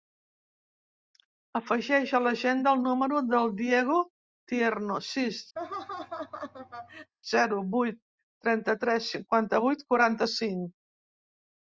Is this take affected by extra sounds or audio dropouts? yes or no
yes